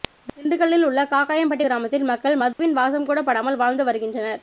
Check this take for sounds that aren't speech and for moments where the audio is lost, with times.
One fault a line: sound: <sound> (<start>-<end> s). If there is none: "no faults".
sound: dropout (2.5-2.6 s)